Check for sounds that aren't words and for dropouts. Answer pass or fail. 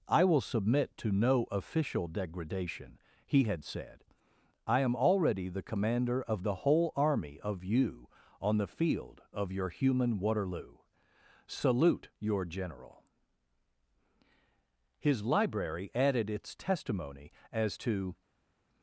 pass